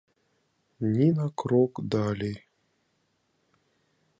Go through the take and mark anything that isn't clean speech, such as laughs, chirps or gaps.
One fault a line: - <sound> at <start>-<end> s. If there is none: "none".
none